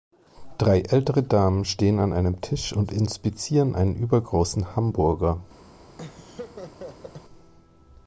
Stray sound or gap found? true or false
true